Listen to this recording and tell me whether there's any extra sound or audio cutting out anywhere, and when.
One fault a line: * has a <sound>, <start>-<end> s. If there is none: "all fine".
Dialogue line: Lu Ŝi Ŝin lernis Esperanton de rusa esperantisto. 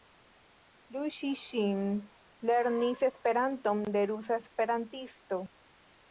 all fine